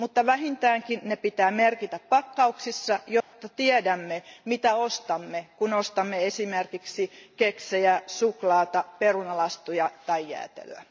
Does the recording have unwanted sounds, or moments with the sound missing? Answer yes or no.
yes